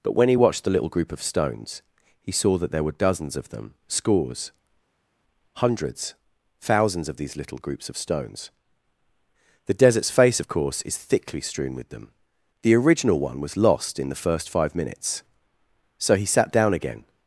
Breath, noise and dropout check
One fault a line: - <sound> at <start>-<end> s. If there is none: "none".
none